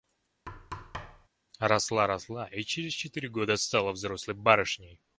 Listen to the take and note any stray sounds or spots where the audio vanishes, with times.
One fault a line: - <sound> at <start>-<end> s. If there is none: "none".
- thud at 0.5-1.3 s